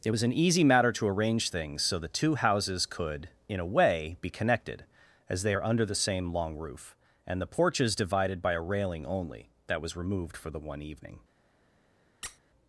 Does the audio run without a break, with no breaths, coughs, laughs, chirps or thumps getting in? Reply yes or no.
no